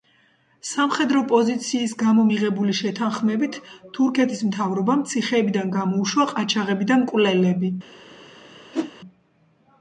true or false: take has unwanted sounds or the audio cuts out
true